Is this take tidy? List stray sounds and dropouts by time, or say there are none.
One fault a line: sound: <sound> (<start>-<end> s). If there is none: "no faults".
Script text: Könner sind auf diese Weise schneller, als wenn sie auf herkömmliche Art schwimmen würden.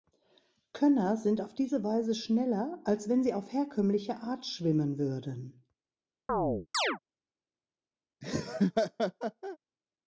sound: chirp (6.3-7.0 s)
sound: laugh (8.2-9.6 s)